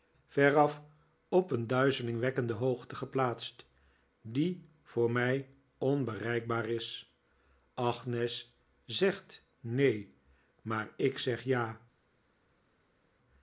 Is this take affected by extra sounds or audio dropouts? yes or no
no